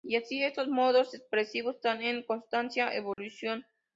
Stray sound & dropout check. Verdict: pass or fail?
fail